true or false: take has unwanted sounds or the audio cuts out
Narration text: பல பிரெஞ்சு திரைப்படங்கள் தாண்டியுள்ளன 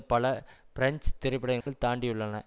true